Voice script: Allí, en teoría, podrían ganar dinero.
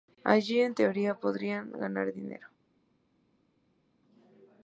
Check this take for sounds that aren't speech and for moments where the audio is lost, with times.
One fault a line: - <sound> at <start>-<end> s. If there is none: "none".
none